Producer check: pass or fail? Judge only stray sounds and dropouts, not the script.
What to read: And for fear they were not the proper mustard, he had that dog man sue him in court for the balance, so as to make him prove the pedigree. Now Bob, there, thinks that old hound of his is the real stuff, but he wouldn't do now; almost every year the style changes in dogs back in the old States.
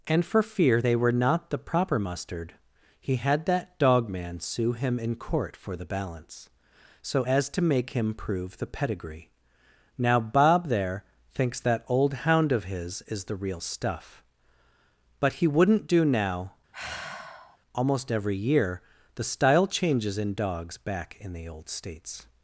fail